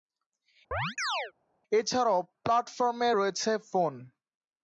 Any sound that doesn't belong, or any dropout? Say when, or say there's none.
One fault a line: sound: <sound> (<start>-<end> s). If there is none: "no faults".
sound: chirp (0.7-1.3 s)